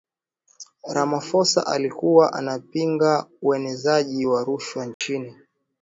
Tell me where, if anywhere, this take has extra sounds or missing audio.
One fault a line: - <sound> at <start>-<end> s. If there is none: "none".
- dropout at 4.9-5.0 s